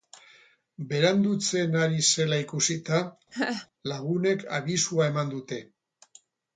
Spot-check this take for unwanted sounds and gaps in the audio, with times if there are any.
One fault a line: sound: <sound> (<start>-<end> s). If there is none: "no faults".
sound: laugh (3.3-3.7 s)